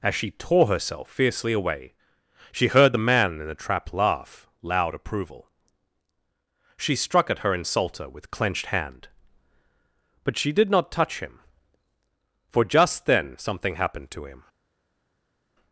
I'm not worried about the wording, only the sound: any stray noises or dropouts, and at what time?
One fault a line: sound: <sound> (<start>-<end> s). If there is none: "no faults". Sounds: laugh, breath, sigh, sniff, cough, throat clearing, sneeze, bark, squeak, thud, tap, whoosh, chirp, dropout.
no faults